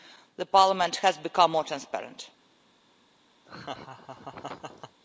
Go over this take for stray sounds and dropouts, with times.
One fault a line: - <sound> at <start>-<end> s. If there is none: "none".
- laugh at 3.4-5.0 s